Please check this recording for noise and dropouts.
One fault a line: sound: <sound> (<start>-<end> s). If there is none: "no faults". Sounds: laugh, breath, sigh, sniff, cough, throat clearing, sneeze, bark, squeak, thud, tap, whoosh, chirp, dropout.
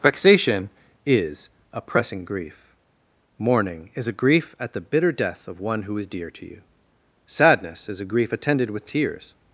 no faults